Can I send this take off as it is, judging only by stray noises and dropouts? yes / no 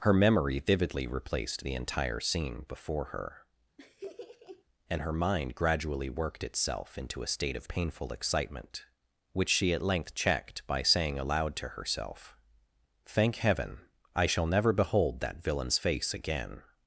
no